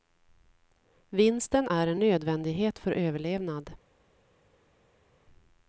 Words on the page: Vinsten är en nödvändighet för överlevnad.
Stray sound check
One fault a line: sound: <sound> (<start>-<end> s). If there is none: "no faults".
no faults